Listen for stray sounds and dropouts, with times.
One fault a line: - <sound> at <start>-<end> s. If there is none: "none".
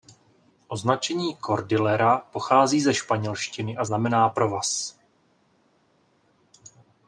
none